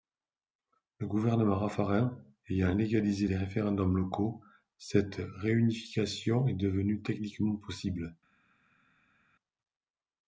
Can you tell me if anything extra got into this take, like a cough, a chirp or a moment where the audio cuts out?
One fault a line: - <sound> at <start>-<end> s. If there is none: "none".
none